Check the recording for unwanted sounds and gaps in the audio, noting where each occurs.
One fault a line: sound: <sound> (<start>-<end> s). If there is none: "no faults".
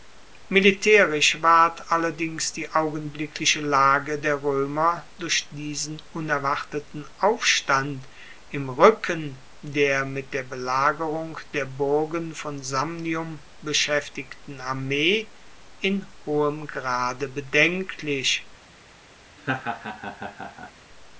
sound: laugh (19.4-20.7 s)